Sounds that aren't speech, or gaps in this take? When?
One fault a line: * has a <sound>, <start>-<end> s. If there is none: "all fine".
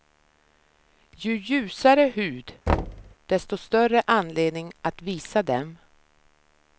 * has a thud, 2.7-3.2 s